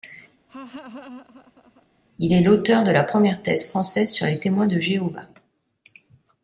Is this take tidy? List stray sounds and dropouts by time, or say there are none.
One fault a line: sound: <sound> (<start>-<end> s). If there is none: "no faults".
sound: laugh (0.5-1.9 s)